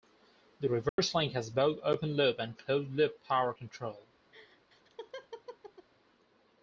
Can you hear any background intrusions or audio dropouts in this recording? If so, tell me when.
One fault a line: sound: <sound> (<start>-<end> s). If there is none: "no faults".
sound: dropout (0.9-1.0 s)
sound: laugh (4.3-5.9 s)